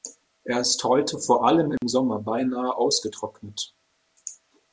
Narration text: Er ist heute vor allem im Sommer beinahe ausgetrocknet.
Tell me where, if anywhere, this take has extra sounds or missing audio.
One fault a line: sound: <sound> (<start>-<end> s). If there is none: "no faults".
sound: dropout (1.8-1.8 s)